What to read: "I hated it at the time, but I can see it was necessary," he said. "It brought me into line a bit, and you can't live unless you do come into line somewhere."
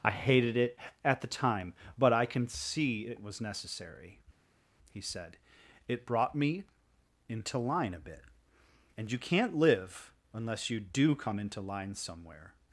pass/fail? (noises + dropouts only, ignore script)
pass